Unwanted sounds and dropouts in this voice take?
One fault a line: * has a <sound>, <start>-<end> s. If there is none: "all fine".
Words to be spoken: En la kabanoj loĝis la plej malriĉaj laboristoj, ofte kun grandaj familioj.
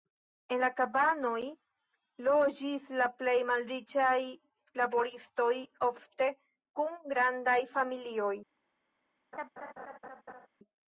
* has a laugh, 9.3-10.5 s